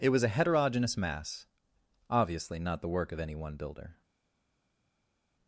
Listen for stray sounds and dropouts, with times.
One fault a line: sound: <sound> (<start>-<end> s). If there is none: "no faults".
no faults